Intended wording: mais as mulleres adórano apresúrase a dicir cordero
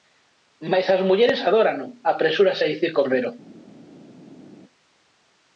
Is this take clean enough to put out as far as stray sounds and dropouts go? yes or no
yes